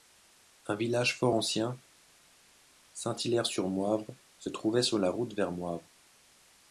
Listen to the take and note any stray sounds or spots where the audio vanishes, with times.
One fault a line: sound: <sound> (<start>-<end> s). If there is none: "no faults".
no faults